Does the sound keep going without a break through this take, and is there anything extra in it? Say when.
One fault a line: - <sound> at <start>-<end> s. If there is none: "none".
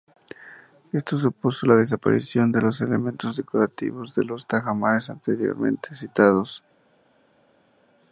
none